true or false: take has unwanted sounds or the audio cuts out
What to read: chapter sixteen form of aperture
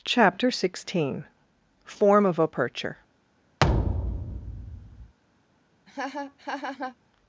true